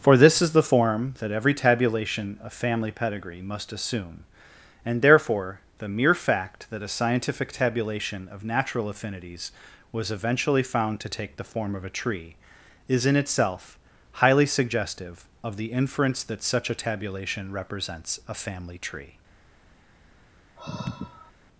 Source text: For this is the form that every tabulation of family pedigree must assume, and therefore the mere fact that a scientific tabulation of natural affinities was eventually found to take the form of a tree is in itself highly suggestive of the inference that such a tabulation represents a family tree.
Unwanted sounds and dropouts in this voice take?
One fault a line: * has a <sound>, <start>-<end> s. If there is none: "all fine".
* has a sigh, 20.6-21.3 s